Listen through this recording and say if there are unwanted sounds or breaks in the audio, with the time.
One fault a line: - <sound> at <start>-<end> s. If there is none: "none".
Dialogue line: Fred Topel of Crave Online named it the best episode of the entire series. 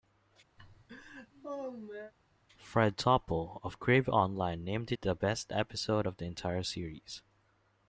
- laugh at 0.6-2.1 s